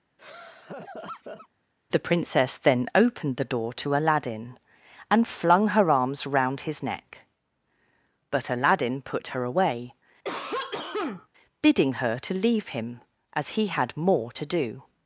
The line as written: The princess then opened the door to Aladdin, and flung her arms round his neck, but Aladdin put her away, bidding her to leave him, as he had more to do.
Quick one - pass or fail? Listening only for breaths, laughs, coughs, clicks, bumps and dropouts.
fail